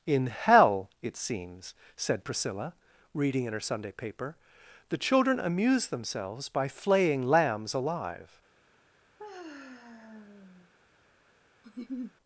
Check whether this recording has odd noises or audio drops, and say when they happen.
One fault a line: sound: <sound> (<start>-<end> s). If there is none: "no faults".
sound: sigh (9.2-10.7 s)
sound: laugh (11.6-12.1 s)